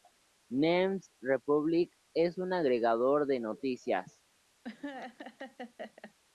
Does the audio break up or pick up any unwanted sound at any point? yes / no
yes